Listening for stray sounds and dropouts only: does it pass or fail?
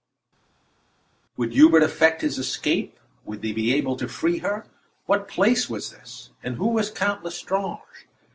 pass